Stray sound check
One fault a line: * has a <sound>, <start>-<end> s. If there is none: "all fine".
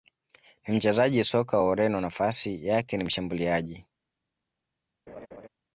* has a laugh, 5.1-5.5 s